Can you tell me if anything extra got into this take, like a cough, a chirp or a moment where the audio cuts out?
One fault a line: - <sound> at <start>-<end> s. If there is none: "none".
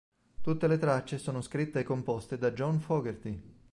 none